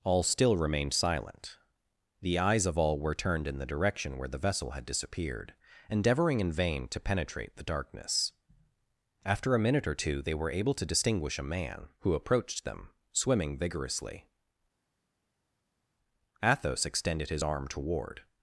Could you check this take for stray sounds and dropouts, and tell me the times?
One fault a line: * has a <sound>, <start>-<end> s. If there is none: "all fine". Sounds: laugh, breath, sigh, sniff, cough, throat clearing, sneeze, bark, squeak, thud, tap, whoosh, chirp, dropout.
all fine